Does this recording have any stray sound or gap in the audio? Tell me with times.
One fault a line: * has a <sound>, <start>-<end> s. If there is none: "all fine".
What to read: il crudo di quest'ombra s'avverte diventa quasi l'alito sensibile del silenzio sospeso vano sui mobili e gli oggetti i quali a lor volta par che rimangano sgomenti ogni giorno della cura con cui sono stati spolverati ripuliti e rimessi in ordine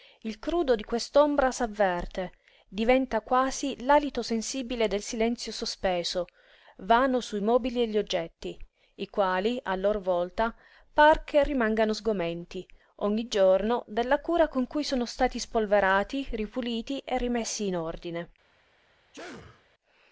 * has a sneeze, 19.1-19.7 s